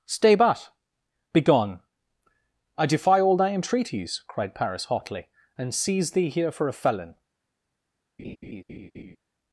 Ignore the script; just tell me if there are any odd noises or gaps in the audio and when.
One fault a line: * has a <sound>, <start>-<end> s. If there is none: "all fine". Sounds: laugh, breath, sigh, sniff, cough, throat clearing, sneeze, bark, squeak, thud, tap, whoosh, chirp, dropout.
* has a laugh, 8.2-9.2 s